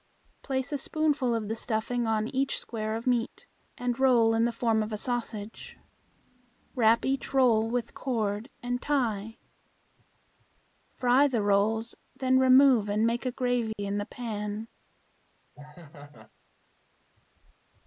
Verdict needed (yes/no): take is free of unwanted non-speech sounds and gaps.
no